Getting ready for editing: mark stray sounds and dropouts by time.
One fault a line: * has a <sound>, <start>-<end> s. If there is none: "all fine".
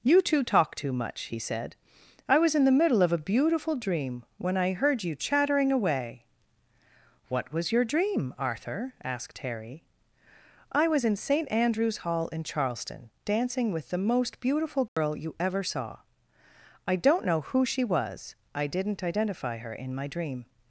* has a dropout, 14.9-15.0 s